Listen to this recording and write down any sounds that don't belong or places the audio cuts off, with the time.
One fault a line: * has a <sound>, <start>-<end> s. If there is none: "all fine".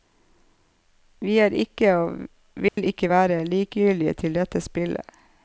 * has a dropout, 2.7-2.8 s